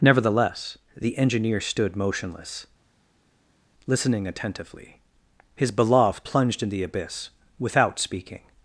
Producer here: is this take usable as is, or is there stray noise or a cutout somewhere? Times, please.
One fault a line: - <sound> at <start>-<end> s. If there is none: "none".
none